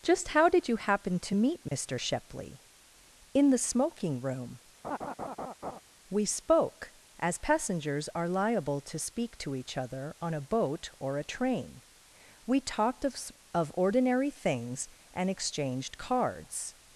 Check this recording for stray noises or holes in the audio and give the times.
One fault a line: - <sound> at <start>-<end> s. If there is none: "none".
- dropout at 1.7-1.7 s
- laugh at 4.8-5.8 s